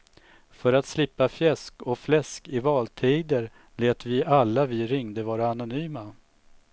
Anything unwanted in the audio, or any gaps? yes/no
no